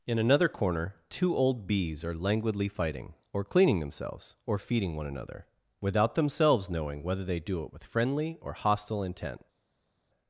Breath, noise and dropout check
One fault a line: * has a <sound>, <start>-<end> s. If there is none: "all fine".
all fine